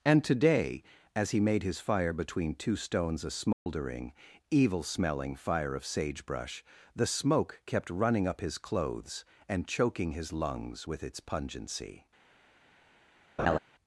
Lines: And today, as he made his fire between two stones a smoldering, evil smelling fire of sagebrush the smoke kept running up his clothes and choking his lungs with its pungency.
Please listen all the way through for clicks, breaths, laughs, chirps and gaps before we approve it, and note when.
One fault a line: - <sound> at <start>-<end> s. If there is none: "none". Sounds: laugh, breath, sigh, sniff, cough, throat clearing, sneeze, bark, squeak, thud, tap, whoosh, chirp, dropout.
- dropout at 3.5-3.7 s
- laugh at 13.4-13.6 s